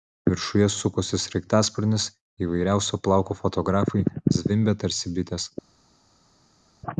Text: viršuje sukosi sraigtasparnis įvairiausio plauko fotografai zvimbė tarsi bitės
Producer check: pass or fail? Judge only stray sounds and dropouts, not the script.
pass